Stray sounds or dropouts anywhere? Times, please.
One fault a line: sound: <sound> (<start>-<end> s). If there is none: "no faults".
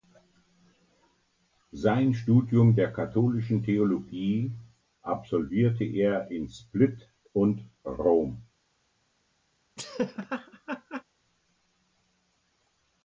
sound: laugh (9.8-11.0 s)